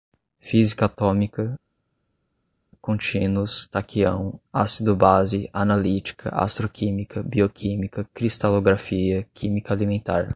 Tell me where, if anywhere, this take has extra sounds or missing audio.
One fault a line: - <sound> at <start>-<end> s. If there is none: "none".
none